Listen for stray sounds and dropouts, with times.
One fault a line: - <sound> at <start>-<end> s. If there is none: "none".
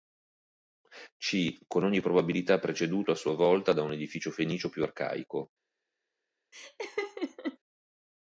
- laugh at 6.5-7.6 s